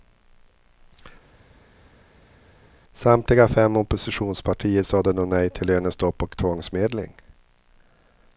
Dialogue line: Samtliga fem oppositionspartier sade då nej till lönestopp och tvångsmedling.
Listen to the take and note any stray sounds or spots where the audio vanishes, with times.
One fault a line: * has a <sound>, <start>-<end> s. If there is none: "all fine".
all fine